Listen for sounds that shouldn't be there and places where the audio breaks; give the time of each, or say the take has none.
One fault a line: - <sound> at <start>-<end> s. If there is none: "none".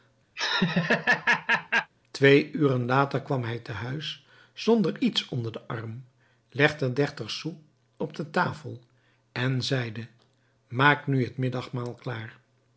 - laugh at 0.4-1.9 s